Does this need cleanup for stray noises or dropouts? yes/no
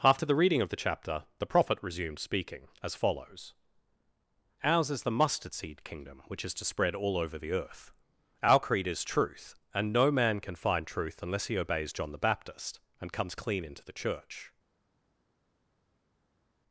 no